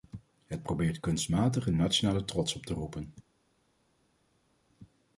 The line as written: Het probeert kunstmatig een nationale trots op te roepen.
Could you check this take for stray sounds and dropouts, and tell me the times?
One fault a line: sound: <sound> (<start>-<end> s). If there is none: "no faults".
no faults